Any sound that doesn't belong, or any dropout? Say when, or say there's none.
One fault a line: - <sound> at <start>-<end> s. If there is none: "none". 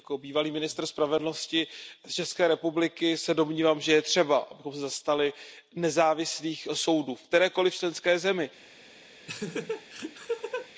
- laugh at 9.3-10.7 s